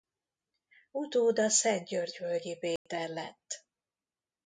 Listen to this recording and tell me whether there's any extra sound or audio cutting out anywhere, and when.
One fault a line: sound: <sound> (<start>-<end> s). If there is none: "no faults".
sound: dropout (2.8-2.9 s)